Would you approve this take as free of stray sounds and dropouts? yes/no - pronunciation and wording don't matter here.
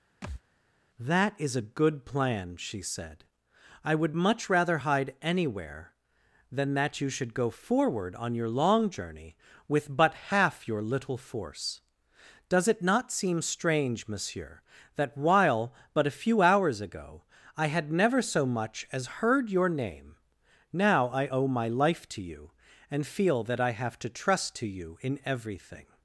no